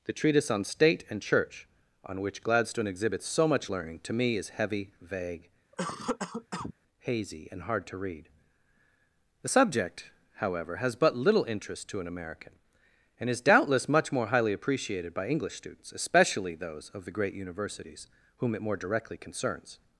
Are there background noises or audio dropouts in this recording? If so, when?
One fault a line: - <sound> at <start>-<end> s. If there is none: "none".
- cough at 5.7-6.7 s